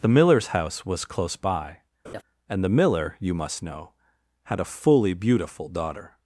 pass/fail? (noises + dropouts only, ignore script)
fail